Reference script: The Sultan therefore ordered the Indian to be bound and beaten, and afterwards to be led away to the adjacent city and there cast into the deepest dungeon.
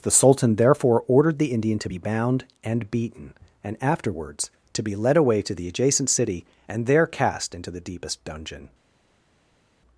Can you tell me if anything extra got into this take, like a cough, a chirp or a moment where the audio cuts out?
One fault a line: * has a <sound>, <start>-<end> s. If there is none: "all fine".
all fine